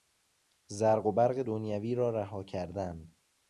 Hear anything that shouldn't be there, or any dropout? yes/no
no